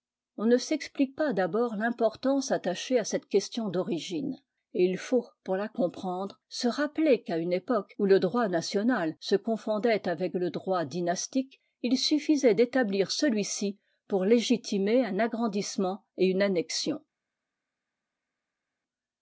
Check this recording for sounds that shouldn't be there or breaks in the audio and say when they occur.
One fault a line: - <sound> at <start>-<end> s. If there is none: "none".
none